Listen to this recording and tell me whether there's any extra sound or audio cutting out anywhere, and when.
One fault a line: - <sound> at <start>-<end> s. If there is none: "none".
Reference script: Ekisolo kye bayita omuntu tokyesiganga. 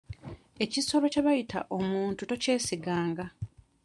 none